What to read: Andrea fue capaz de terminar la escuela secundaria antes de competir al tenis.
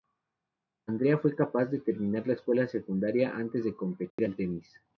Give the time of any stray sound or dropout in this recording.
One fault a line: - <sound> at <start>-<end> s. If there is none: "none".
- dropout at 4.1-4.2 s